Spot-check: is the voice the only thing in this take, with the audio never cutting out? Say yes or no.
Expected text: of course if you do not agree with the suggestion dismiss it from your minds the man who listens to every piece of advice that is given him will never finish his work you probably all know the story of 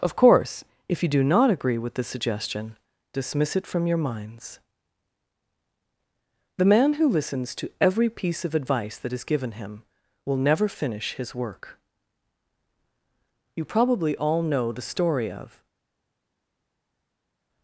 yes